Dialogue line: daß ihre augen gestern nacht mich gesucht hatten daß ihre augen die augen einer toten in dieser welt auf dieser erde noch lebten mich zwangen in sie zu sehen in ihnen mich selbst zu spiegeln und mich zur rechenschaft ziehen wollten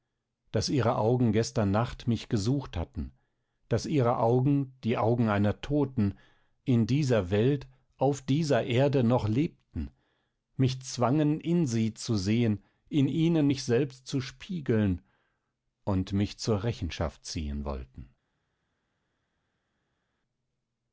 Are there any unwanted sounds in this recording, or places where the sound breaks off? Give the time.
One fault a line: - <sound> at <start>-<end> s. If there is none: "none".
none